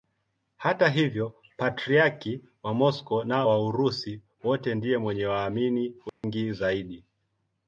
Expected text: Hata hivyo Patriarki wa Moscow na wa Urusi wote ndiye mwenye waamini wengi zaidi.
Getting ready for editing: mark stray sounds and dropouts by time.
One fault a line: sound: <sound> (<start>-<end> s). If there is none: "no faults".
sound: dropout (6.1-6.2 s)